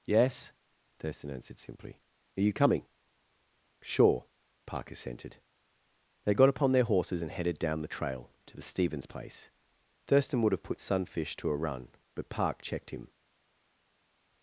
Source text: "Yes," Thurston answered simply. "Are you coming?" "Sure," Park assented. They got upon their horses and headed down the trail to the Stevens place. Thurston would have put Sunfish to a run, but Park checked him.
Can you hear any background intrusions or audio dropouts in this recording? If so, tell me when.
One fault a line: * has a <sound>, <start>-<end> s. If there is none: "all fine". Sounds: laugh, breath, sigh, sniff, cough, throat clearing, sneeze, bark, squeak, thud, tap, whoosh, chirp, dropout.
all fine